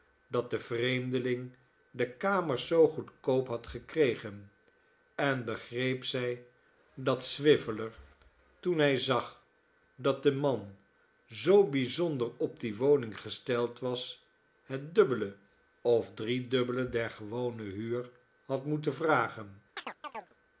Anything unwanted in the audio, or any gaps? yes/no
yes